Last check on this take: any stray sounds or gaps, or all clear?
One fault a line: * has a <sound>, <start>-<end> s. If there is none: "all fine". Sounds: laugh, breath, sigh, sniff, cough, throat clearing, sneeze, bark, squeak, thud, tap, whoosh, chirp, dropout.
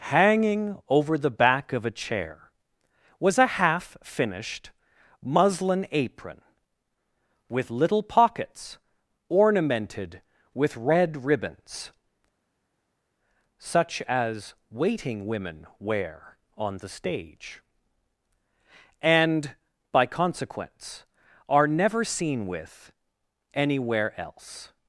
all fine